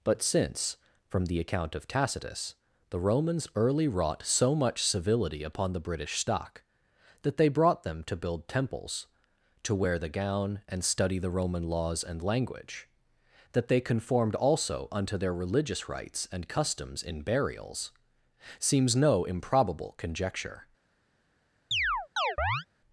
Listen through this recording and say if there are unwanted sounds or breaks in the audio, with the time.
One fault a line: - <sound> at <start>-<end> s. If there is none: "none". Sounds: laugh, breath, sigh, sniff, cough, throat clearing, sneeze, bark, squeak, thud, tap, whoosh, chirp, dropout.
- chirp at 21.7-22.7 s